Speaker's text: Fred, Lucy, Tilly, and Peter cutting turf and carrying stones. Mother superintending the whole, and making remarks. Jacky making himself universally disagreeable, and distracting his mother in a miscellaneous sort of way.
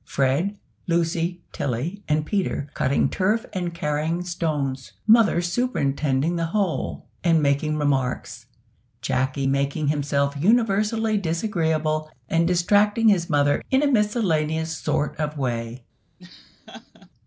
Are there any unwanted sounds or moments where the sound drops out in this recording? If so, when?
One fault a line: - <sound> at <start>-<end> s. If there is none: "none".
- laugh at 16.2-17.1 s